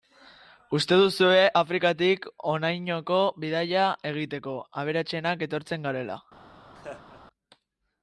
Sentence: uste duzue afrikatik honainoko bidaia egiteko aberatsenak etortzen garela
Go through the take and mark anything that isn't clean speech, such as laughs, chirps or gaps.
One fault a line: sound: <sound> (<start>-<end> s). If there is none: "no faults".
sound: laugh (6.7-7.2 s)